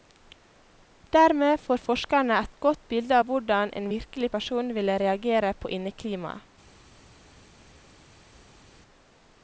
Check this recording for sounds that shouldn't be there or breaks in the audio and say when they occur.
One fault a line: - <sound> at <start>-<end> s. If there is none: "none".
none